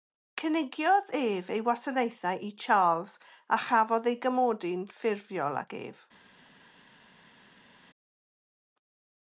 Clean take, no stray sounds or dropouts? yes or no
yes